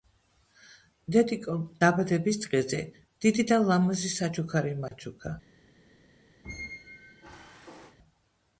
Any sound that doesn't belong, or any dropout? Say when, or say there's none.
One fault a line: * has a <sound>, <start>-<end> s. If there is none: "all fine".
* has a dropout, 4.9-4.9 s
* has a squeak, 6.4-8.0 s